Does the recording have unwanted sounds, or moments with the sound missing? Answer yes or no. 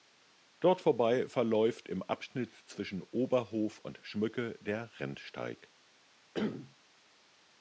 yes